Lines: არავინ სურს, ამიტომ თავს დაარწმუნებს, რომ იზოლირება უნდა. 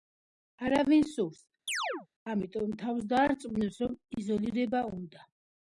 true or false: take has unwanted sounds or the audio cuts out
true